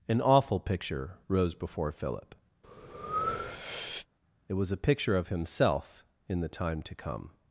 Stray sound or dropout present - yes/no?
yes